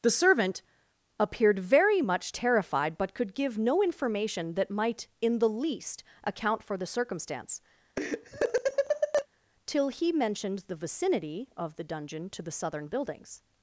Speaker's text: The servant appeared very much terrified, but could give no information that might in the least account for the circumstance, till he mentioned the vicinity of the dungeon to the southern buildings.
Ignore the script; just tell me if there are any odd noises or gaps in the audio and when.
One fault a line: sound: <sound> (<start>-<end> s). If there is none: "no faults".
sound: laugh (8.0-9.3 s)